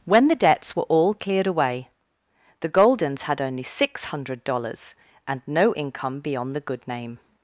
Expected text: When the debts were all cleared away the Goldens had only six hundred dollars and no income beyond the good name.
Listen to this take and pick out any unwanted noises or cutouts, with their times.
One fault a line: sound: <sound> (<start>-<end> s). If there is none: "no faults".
no faults